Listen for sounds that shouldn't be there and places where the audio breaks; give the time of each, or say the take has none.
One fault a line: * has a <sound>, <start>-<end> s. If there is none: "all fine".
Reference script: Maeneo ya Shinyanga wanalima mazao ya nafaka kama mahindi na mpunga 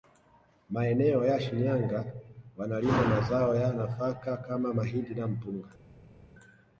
all fine